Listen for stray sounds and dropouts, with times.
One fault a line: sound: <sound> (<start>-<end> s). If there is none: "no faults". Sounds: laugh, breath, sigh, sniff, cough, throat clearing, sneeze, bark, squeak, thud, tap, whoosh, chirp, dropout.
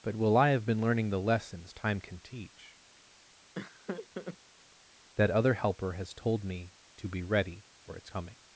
sound: laugh (3.5-4.4 s)